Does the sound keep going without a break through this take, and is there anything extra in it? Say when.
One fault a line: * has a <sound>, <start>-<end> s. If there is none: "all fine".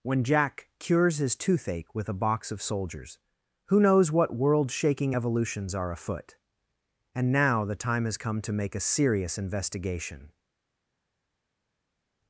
all fine